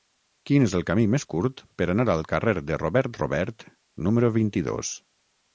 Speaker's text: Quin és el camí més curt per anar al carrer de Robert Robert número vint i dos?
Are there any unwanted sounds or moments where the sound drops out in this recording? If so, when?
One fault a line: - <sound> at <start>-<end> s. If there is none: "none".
none